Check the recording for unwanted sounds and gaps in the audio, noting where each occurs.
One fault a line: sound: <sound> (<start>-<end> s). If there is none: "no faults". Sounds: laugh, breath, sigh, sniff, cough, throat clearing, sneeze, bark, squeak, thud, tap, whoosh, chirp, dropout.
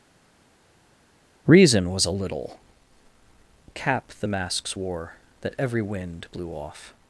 no faults